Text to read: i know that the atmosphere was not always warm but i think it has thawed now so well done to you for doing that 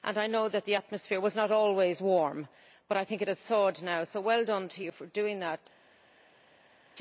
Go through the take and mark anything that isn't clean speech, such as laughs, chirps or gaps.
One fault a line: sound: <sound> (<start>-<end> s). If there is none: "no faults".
no faults